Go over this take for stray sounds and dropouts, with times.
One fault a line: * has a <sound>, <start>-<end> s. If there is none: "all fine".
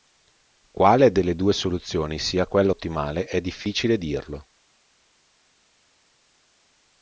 all fine